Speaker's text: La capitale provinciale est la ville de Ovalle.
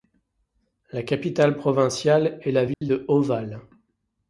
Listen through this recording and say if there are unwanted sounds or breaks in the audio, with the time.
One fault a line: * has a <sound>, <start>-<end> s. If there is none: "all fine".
* has a dropout, 2.7-2.8 s